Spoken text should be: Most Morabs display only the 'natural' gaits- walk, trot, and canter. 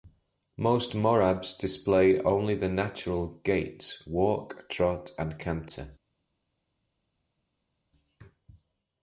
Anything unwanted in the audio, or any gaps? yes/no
no